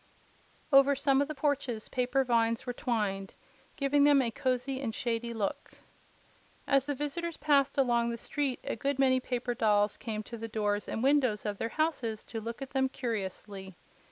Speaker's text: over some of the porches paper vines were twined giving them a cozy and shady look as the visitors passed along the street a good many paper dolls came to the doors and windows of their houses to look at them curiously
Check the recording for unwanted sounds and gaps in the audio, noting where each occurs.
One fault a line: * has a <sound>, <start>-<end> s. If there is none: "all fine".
all fine